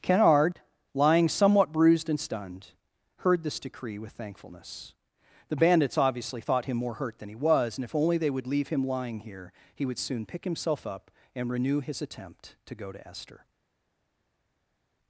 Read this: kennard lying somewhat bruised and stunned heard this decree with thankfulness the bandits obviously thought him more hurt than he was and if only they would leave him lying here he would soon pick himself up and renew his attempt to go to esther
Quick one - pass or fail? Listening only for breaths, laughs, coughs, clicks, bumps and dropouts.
pass